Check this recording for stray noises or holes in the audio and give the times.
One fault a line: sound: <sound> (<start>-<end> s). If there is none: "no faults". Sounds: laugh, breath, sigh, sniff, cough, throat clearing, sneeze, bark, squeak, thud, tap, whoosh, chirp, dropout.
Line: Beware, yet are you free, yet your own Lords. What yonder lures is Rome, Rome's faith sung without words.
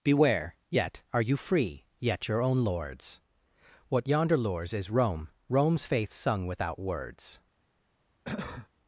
sound: cough (8.2-8.7 s)